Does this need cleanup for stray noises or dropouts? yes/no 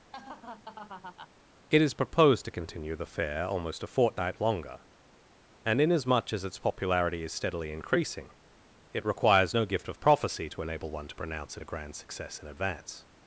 yes